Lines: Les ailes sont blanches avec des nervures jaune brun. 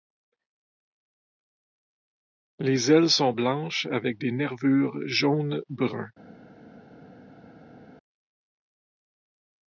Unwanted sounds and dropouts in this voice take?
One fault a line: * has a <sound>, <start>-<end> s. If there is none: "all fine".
all fine